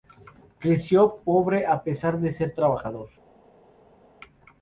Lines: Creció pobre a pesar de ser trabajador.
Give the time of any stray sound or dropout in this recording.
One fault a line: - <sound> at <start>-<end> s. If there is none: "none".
none